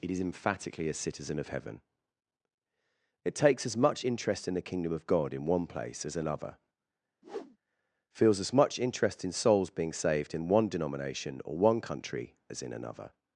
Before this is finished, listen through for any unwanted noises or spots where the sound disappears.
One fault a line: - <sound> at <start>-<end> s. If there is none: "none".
- whoosh at 7.2-7.6 s